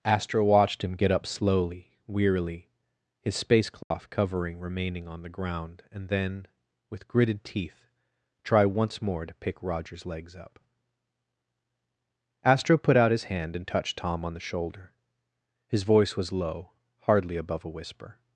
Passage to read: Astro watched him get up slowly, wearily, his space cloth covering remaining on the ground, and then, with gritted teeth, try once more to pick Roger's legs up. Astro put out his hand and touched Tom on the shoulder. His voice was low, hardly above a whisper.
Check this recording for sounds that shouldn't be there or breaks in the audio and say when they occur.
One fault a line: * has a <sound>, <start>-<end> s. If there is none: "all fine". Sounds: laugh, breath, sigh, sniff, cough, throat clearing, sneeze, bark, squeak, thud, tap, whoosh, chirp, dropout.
* has a dropout, 3.8-3.9 s